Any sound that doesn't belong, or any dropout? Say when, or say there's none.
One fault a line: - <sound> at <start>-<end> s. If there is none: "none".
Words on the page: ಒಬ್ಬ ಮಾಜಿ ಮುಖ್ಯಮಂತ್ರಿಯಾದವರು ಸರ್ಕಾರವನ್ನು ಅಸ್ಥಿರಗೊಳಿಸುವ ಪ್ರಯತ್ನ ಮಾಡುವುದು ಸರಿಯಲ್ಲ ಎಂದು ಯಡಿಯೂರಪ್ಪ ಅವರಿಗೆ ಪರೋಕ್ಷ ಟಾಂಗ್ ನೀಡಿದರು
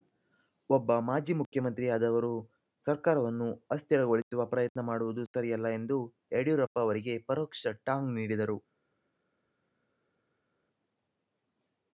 none